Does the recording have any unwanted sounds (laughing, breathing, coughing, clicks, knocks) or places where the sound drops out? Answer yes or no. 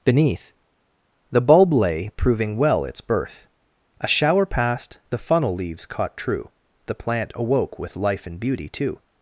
no